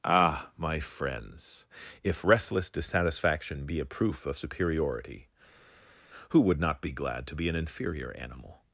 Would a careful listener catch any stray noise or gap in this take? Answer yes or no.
no